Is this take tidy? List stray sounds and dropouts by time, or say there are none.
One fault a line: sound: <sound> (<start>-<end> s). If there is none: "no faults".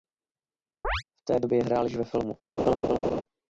sound: chirp (0.8-1.0 s)
sound: laugh (2.6-3.2 s)